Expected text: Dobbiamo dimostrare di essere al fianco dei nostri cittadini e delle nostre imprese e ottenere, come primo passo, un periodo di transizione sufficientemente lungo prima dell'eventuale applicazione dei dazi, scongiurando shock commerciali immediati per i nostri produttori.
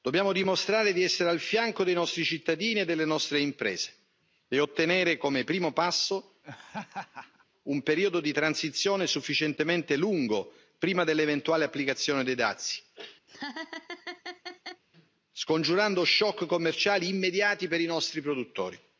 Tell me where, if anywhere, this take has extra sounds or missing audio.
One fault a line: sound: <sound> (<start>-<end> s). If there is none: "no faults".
sound: laugh (6.4-7.5 s)
sound: laugh (13.3-14.8 s)